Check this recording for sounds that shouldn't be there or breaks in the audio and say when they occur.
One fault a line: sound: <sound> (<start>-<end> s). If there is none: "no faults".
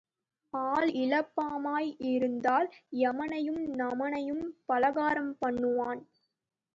no faults